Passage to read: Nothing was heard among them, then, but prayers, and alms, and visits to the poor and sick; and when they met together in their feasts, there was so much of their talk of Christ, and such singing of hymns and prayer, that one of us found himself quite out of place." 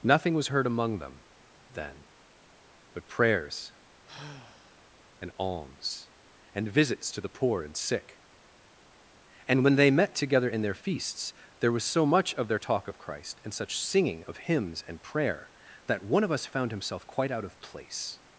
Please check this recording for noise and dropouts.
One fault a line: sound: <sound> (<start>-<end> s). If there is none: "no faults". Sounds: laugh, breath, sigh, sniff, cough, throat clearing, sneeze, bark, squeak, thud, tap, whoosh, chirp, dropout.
sound: sigh (4.1-4.9 s)